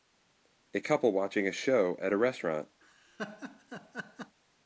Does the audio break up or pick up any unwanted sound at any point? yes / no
yes